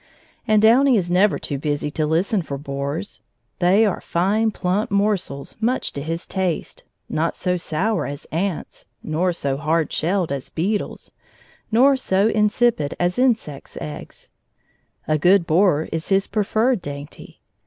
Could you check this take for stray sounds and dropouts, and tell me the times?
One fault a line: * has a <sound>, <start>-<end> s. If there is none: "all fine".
all fine